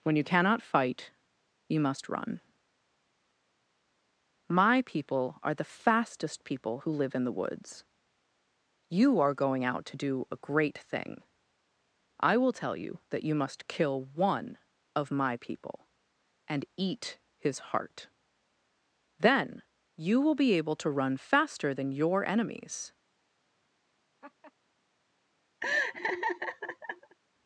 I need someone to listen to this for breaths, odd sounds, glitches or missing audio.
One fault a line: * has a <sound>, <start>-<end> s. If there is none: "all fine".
* has a laugh, 24.2-24.5 s
* has a laugh, 25.6-27.2 s